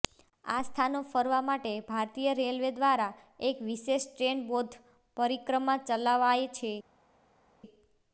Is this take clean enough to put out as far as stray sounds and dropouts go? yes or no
yes